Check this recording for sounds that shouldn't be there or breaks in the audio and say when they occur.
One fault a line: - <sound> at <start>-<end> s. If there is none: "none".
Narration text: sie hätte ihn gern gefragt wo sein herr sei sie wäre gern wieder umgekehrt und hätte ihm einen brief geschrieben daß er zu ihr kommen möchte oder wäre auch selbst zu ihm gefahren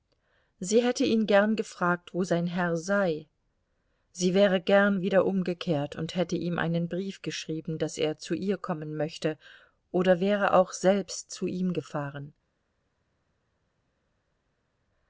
none